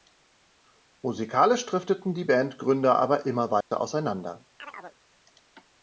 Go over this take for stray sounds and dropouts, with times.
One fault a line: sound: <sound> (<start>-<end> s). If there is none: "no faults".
sound: dropout (3.6-3.7 s)
sound: chirp (4.6-5.0 s)